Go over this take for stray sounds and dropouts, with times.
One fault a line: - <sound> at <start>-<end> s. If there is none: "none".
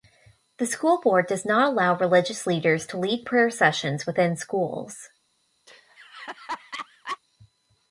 - laugh at 5.7-7.2 s